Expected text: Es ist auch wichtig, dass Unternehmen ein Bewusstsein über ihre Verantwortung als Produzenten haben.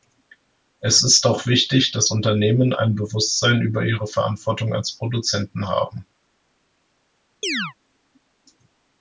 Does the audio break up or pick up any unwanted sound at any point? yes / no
yes